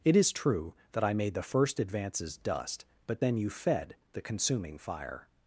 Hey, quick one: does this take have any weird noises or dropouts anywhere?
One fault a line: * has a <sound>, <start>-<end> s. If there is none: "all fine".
all fine